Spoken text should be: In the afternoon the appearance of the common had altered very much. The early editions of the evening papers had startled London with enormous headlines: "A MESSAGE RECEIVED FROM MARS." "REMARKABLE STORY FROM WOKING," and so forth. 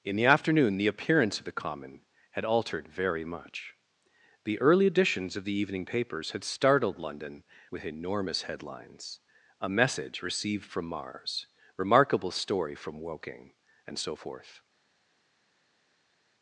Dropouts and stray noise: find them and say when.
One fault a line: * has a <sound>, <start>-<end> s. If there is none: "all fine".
all fine